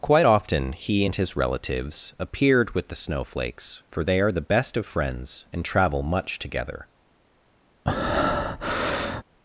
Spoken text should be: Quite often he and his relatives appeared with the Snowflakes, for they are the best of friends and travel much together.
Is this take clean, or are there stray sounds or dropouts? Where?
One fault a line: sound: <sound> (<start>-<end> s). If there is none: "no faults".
sound: breath (7.9-9.2 s)